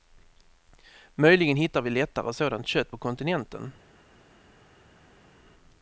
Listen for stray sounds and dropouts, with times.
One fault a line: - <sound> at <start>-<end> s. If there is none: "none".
none